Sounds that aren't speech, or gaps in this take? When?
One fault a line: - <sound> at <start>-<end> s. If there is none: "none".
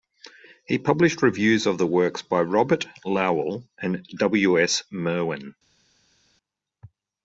none